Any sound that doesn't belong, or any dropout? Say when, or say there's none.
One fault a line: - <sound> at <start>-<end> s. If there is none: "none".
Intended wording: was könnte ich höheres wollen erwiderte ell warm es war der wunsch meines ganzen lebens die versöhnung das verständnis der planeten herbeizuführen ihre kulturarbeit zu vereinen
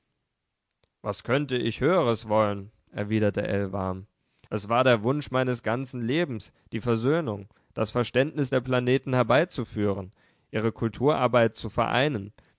none